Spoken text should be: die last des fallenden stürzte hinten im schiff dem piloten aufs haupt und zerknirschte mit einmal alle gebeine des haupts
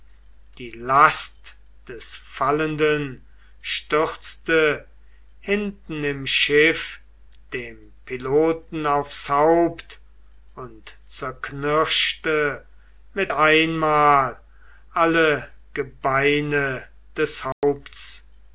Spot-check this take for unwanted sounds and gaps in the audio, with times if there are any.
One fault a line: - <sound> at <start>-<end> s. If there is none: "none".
- dropout at 17.5-17.6 s